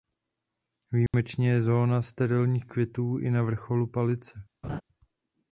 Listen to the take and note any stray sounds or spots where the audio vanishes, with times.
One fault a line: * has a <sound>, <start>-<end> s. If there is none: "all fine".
* has a dropout, 1.1-1.1 s
* has a laugh, 4.6-4.8 s